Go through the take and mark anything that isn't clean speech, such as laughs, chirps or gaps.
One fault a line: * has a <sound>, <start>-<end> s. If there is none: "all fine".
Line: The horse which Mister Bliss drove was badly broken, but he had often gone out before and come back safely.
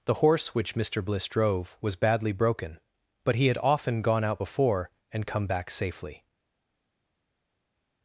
all fine